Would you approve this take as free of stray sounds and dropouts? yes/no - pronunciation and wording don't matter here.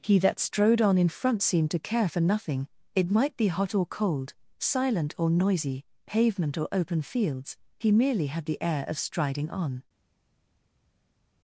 yes